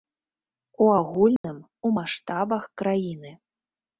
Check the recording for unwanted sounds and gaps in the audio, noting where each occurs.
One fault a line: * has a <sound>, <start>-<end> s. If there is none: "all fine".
* has a dropout, 1.4-1.4 s